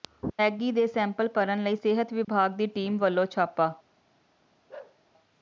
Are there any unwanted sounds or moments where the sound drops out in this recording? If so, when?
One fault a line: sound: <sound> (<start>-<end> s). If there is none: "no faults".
sound: dropout (2.2-2.3 s)
sound: bark (4.7-5.0 s)